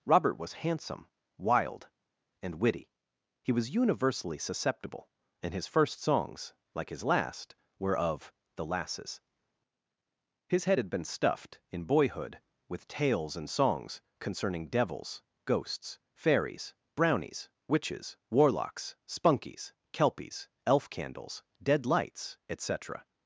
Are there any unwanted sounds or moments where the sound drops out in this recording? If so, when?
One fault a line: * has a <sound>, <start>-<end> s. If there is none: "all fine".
all fine